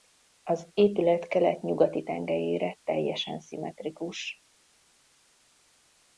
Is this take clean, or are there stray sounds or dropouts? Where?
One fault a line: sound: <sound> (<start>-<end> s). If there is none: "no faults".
no faults